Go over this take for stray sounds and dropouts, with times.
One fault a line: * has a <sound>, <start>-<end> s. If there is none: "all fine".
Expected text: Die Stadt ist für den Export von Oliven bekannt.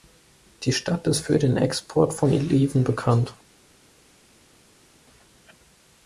all fine